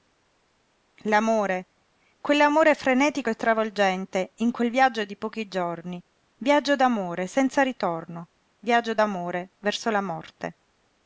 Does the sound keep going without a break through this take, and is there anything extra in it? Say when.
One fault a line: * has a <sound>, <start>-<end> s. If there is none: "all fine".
all fine